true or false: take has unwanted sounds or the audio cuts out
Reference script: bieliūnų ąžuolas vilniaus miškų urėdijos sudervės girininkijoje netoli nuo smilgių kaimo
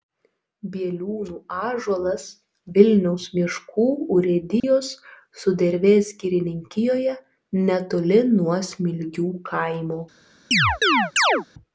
true